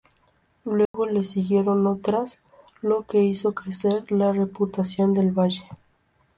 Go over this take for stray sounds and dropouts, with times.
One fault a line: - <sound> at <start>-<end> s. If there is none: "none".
- dropout at 0.9-0.9 s